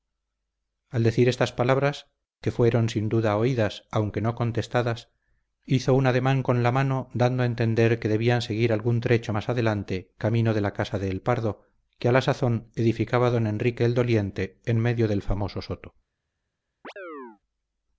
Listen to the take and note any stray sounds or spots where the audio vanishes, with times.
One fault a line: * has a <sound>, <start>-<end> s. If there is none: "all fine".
* has a chirp, 16.8-17.4 s